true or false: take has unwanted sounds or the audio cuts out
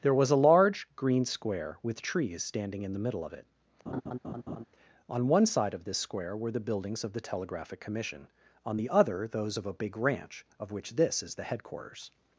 true